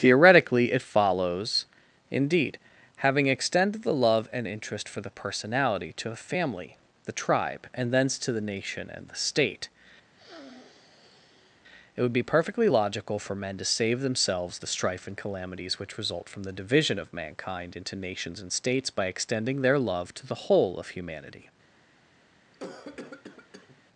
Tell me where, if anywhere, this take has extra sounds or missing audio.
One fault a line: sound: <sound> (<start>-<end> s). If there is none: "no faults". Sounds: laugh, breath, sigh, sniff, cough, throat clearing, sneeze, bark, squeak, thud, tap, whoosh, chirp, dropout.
sound: sniff (10.1-11.6 s)
sound: cough (22.5-23.8 s)